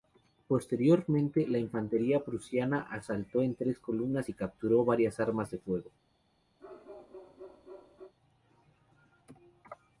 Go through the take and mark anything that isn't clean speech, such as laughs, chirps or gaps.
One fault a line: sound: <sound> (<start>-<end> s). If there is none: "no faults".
sound: bark (6.6-8.1 s)